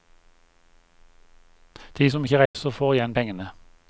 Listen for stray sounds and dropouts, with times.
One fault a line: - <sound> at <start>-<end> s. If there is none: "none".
- dropout at 2.5-2.5 s